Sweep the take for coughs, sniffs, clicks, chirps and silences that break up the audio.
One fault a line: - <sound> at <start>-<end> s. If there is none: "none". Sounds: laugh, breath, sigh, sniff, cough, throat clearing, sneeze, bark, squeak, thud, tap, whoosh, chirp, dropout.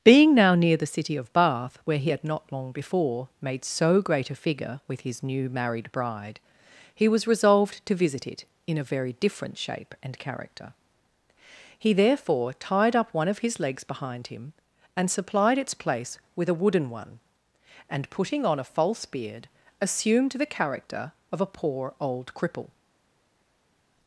none